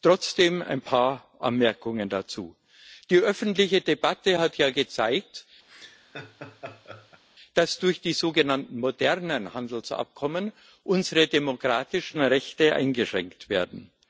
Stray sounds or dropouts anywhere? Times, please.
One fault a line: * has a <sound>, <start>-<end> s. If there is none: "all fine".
* has a laugh, 5.7-7.2 s